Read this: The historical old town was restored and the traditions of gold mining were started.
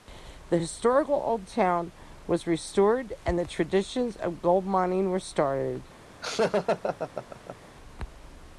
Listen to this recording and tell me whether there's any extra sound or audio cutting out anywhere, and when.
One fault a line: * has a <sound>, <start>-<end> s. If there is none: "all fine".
* has a laugh, 6.2-7.7 s